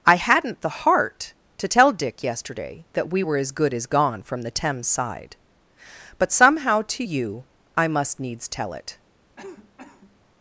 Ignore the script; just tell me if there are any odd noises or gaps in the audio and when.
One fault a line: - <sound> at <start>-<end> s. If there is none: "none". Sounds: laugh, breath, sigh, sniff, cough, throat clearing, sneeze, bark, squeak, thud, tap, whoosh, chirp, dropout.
- cough at 9.4-10.2 s